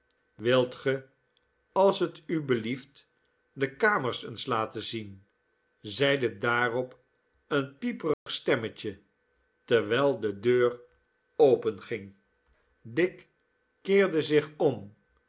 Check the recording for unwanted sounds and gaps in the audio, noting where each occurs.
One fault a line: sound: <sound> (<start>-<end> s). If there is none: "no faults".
sound: dropout (8.1-8.3 s)